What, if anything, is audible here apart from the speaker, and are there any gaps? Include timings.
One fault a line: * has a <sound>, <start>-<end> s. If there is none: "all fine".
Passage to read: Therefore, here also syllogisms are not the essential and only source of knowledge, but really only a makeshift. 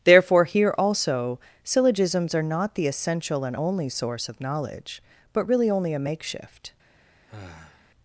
* has a sigh, 7.3-7.9 s